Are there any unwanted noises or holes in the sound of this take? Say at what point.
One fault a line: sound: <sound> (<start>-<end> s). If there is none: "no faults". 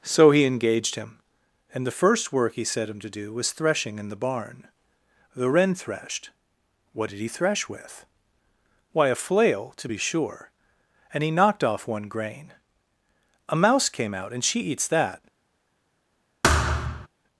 sound: thud (16.4-17.1 s)